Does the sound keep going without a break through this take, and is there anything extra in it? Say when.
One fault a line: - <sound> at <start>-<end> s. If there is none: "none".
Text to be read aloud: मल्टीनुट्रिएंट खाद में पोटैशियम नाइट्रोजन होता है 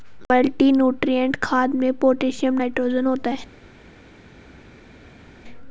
none